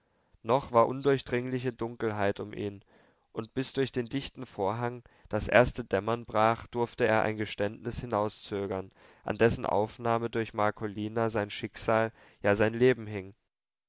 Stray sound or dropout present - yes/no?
no